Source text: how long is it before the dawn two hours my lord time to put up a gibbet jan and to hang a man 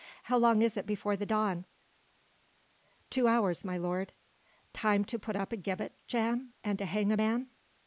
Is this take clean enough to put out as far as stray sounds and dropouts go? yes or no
yes